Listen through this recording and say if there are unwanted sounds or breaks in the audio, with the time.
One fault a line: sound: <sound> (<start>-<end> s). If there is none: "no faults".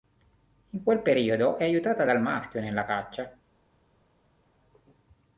no faults